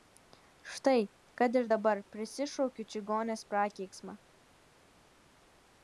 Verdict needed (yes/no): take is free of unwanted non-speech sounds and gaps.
yes